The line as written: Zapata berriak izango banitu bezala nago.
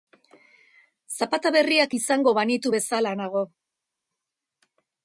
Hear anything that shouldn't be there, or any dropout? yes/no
no